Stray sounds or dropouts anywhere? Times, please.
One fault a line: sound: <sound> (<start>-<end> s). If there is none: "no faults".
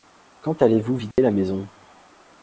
sound: dropout (1.1-1.2 s)